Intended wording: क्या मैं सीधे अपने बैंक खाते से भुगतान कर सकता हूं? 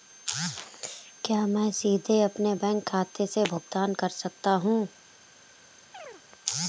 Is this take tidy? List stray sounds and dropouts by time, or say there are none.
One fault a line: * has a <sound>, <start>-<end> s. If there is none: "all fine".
* has a chirp, 5.9-6.2 s